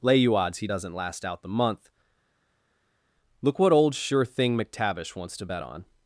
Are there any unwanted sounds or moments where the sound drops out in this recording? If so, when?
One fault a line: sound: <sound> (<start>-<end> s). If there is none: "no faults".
no faults